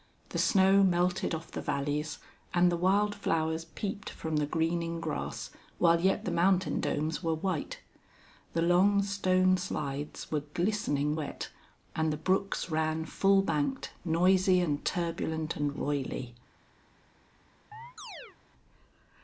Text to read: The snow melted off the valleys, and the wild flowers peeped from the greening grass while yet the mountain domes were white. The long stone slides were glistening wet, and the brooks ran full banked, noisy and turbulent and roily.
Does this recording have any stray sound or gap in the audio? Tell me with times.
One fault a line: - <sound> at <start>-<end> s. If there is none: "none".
- chirp at 17.7-18.4 s